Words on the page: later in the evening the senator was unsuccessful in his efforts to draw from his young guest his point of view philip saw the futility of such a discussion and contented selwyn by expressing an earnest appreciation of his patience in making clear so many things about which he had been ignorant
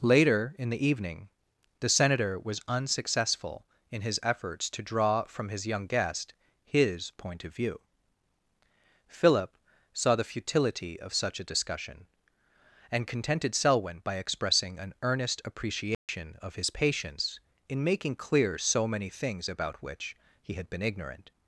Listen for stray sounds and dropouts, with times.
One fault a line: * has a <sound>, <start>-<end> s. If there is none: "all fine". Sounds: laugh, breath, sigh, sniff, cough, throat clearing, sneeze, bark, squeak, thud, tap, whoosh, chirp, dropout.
* has a dropout, 15.9-16.1 s